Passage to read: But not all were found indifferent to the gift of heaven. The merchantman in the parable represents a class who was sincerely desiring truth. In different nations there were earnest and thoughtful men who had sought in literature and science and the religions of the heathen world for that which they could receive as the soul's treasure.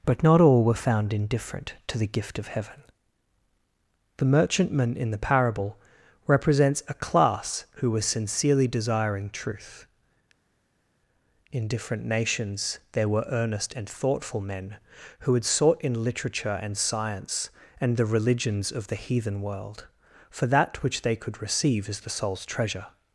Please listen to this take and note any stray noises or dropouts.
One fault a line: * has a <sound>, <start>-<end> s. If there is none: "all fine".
all fine